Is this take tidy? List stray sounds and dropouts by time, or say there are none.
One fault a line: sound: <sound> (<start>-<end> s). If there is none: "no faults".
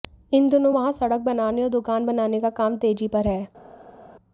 no faults